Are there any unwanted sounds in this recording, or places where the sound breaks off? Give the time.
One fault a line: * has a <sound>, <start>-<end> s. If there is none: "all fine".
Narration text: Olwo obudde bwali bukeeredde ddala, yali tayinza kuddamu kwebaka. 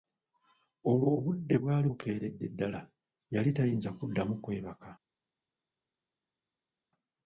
all fine